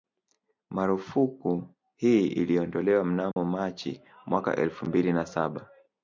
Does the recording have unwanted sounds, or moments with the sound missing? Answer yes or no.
yes